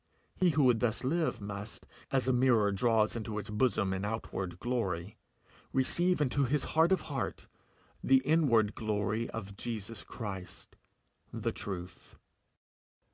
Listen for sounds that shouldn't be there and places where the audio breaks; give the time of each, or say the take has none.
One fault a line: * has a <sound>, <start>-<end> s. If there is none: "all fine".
all fine